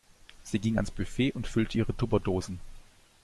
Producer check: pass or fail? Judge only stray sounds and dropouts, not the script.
pass